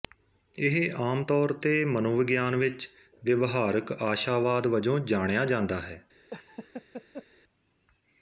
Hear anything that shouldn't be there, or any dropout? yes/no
yes